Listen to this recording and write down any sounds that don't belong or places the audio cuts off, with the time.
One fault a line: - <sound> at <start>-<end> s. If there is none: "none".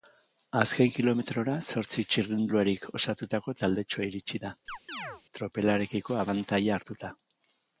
- chirp at 4.7-5.2 s